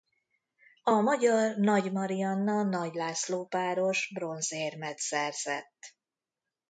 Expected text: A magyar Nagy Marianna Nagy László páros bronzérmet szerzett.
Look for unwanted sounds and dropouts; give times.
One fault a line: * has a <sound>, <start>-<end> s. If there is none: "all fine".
all fine